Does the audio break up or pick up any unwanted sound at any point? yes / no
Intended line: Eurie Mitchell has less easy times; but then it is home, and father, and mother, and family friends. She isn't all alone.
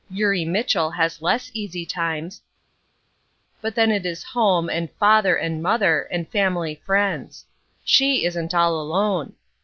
no